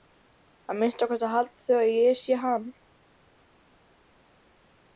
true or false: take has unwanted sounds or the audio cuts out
false